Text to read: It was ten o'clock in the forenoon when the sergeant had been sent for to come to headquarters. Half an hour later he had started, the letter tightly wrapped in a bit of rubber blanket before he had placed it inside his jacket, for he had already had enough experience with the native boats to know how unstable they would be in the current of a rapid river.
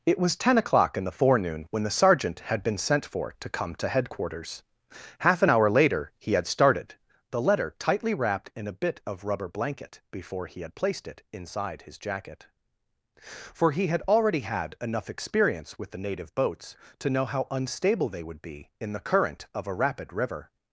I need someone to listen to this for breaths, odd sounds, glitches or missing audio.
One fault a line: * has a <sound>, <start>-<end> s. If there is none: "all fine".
all fine